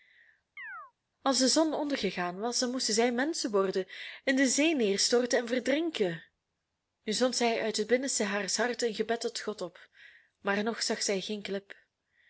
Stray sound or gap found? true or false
true